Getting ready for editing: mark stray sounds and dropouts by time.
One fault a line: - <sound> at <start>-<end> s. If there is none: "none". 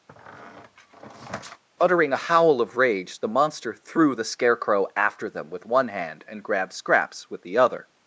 - squeak at 0.1-1.6 s